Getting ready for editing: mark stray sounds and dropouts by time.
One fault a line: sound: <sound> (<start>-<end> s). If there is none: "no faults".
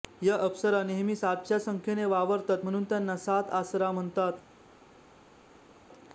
no faults